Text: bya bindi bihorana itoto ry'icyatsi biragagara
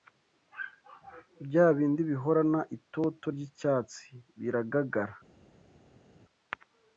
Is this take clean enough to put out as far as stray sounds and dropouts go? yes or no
yes